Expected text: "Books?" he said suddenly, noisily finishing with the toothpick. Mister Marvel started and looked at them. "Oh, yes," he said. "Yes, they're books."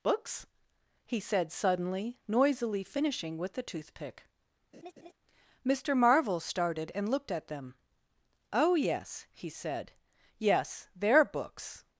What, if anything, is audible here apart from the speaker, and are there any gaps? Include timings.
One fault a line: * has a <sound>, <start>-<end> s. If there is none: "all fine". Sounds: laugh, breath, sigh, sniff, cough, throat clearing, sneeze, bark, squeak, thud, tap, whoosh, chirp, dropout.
* has a laugh, 4.7-5.1 s